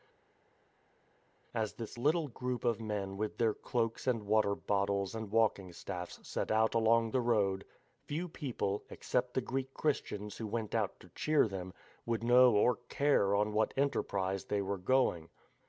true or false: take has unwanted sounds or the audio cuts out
false